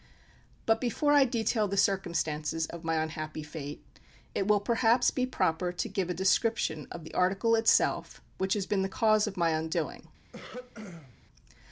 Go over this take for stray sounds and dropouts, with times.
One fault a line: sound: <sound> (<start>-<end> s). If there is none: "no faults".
sound: throat clearing (10.3-11.2 s)